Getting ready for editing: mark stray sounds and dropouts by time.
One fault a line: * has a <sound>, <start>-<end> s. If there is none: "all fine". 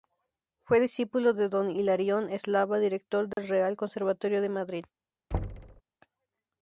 * has a dropout, 3.3-3.4 s
* has a thud, 5.3-5.8 s